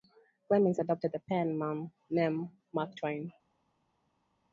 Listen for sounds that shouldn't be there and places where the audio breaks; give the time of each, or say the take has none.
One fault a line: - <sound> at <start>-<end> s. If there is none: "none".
none